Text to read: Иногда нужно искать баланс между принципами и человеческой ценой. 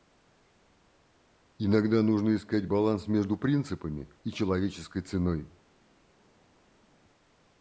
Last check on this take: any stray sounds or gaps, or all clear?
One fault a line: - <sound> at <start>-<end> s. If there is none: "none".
none